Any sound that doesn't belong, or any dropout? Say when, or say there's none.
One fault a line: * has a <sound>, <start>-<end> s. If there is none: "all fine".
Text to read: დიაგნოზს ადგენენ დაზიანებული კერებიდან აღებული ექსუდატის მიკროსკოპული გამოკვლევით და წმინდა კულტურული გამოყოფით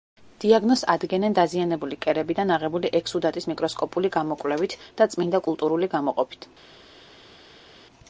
all fine